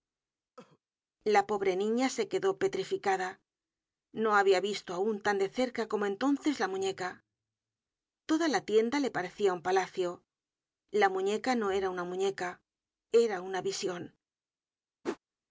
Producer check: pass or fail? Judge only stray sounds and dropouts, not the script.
fail